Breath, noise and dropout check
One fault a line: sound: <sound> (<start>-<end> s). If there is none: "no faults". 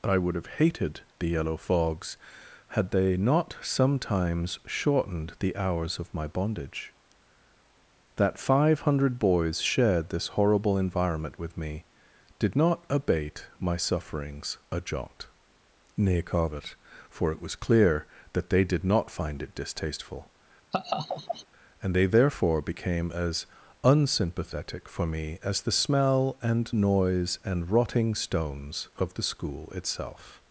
sound: laugh (20.7-21.5 s)